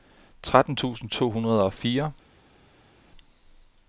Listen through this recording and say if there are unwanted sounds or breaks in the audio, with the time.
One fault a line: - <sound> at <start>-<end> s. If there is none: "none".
none